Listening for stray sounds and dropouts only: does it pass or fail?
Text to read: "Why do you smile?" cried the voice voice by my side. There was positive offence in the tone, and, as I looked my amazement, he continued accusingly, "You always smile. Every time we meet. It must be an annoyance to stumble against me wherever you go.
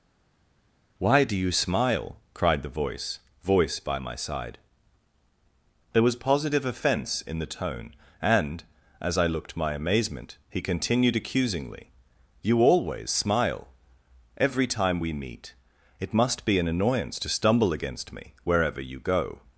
pass